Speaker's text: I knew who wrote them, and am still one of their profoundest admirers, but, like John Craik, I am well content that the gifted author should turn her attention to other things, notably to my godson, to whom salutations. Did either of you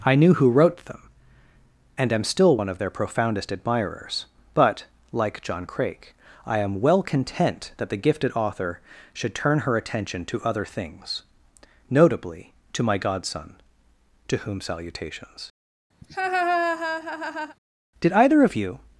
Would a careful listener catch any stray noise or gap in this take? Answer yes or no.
yes